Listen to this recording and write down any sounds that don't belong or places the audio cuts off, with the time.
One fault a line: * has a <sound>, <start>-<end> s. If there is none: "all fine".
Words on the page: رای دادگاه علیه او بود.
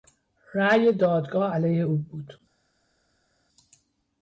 all fine